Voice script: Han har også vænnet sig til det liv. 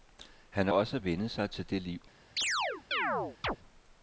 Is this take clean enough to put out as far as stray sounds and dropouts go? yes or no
no